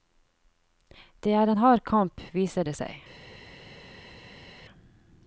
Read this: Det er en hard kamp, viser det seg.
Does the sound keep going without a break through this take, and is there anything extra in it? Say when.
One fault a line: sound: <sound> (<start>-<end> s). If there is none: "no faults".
no faults